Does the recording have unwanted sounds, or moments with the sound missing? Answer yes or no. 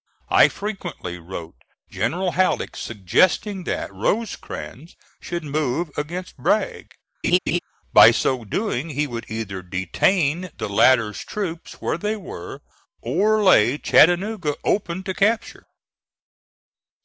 yes